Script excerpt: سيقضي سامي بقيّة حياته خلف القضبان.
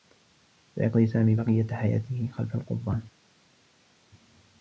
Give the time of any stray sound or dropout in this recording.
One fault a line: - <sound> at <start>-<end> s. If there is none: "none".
none